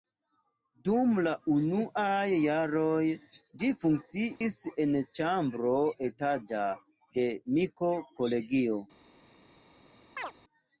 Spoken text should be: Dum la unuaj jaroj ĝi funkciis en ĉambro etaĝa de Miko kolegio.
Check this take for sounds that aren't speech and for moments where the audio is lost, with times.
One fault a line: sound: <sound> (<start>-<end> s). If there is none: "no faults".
sound: dropout (4.4-4.4 s)
sound: chirp (10.2-10.3 s)